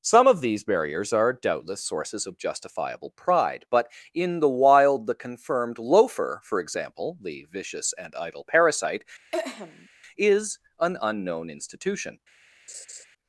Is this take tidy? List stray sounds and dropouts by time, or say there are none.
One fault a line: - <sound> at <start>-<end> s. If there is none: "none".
- throat clearing at 9.3-9.9 s
- laugh at 12.7-13.1 s